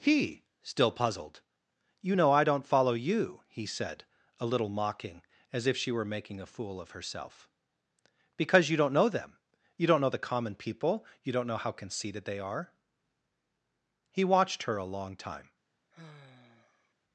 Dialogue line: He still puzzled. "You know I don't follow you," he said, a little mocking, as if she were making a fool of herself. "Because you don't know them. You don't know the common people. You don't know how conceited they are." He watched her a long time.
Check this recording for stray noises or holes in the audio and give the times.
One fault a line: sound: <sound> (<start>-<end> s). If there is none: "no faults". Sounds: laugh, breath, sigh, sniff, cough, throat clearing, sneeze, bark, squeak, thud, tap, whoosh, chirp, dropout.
sound: sigh (15.9-16.9 s)